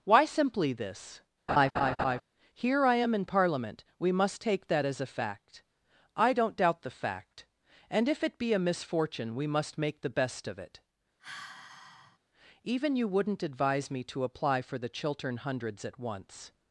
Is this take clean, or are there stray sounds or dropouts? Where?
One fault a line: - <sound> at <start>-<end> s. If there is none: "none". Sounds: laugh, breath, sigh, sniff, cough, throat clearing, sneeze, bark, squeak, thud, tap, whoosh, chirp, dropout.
- laugh at 1.5-2.2 s
- sigh at 11.2-12.2 s